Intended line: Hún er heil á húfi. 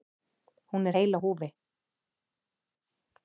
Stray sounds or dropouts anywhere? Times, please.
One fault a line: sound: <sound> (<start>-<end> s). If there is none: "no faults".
no faults